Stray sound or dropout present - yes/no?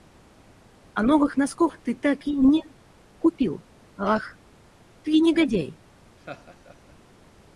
yes